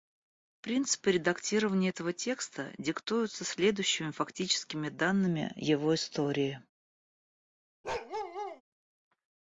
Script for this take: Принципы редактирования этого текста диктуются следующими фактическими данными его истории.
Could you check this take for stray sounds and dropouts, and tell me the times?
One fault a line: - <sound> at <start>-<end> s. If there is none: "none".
- bark at 7.8-8.6 s